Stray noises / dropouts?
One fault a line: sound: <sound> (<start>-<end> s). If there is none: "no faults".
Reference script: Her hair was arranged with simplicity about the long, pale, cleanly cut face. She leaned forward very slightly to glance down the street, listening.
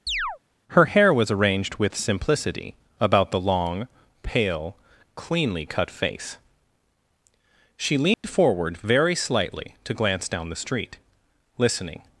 sound: chirp (0.1-0.4 s)
sound: dropout (8.1-8.2 s)